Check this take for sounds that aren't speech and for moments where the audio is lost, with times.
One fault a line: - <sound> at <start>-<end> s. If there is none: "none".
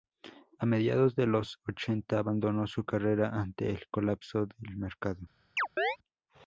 - chirp at 5.6-6.0 s